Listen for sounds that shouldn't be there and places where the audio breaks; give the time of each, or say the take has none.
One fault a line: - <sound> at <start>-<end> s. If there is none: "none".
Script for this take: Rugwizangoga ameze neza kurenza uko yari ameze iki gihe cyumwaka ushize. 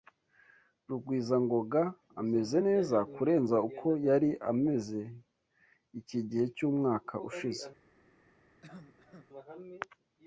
- cough at 8.6-9.3 s